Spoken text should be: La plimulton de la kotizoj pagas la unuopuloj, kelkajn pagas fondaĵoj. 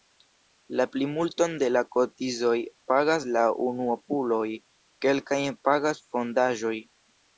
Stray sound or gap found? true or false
false